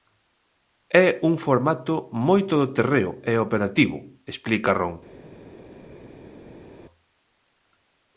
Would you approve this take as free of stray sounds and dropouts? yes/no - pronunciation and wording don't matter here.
yes